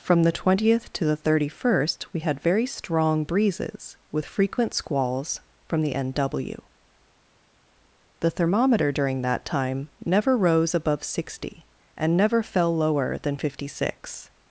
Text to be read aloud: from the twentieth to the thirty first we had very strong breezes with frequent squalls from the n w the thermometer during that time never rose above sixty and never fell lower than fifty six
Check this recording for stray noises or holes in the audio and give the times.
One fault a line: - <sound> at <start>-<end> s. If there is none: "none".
none